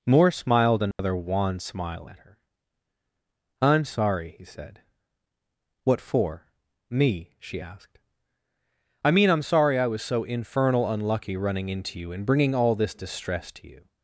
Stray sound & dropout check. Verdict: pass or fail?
fail